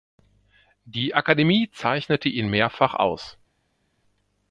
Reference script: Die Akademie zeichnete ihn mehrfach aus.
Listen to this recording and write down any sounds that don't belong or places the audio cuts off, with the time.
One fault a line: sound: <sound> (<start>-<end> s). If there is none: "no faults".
no faults